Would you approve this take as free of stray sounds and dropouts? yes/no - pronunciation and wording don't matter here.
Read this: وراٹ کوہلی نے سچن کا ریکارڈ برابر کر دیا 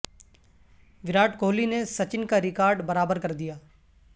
yes